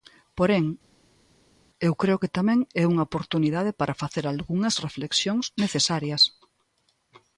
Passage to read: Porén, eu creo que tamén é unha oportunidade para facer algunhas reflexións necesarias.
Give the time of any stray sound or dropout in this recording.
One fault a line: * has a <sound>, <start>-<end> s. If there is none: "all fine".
all fine